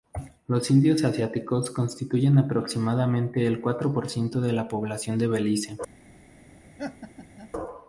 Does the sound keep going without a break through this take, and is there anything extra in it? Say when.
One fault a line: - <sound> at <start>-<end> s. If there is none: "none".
- laugh at 6.8-7.5 s